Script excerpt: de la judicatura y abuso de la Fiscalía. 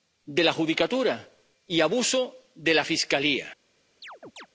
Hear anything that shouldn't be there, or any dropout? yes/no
yes